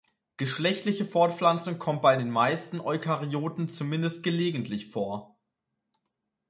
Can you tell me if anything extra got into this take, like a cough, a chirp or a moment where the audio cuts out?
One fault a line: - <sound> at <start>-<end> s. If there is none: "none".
none